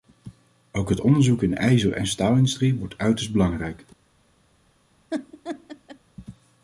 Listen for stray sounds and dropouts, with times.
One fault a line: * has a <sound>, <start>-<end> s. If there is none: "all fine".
* has a laugh, 5.1-6.0 s